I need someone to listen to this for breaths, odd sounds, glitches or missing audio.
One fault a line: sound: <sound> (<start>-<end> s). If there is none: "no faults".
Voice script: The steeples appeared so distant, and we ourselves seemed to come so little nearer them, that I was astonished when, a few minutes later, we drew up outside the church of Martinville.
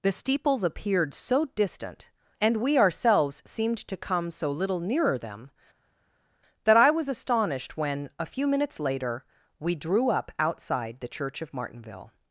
no faults